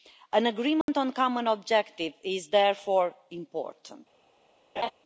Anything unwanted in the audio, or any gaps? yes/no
yes